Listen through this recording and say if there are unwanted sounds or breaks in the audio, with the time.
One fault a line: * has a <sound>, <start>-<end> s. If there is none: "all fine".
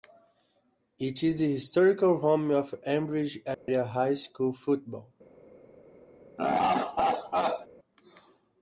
* has a dropout, 3.5-3.7 s
* has a laugh, 6.4-7.7 s